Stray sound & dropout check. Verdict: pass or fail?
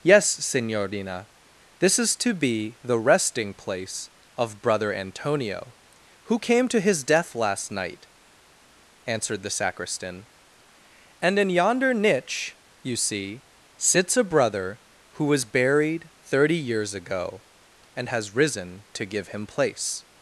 pass